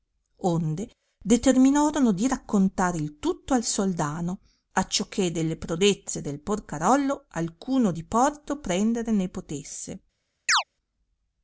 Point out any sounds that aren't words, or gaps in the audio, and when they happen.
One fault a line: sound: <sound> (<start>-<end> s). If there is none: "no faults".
sound: chirp (10.5-10.6 s)